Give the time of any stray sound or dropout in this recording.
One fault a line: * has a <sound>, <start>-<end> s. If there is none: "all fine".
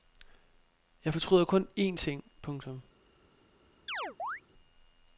* has a chirp, 3.9-4.4 s